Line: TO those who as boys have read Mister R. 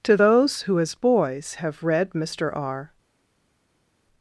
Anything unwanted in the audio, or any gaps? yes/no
no